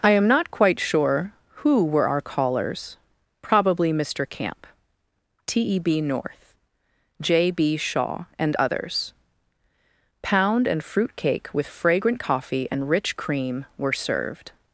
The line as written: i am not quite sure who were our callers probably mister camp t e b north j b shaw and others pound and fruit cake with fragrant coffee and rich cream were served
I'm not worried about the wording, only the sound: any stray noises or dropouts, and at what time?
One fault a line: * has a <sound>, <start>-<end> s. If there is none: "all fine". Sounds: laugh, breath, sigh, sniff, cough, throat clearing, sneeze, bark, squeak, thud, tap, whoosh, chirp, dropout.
all fine